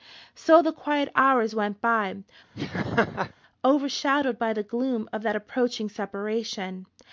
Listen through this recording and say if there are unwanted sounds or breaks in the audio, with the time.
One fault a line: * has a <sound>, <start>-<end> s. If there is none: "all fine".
* has a laugh, 2.5-3.3 s